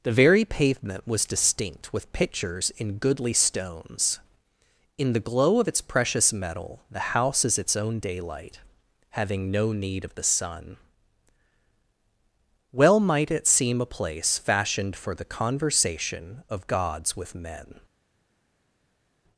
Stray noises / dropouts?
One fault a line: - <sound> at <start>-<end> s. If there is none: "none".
none